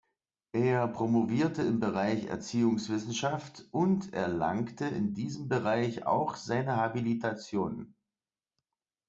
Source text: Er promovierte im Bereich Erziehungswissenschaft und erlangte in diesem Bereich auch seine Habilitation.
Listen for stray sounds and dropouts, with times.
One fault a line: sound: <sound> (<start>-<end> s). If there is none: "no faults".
no faults